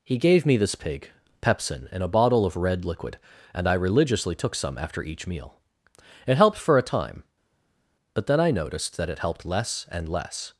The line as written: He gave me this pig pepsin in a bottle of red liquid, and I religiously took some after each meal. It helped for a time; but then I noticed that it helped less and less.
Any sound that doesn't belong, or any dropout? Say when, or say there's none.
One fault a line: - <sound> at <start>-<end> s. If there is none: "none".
none